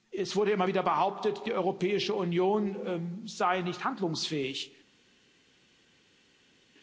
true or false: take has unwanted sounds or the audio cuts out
false